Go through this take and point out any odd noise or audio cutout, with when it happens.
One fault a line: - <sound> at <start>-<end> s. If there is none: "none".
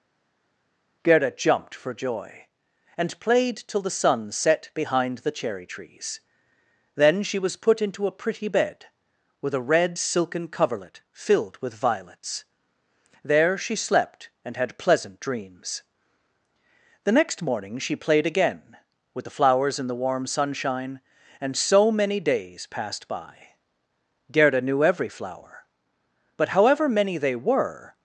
none